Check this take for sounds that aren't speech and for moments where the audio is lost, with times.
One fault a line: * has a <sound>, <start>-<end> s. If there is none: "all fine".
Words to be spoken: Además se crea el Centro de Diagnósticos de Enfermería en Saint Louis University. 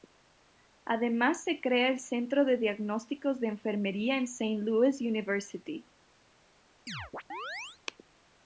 * has a chirp, 6.9-7.8 s